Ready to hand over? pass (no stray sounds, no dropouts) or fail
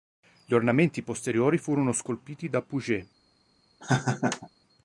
fail